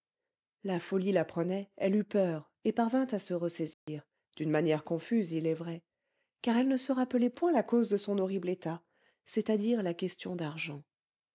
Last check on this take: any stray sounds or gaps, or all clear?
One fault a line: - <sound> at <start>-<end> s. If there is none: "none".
- dropout at 3.7-3.9 s